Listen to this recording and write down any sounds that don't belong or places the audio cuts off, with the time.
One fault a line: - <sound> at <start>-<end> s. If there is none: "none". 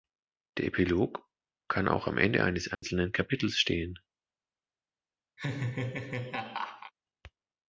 - dropout at 2.7-2.8 s
- laugh at 5.4-6.9 s